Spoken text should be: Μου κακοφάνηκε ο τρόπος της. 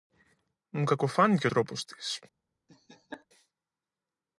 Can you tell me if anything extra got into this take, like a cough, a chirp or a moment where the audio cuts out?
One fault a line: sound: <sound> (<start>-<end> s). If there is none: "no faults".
sound: laugh (2.7-3.3 s)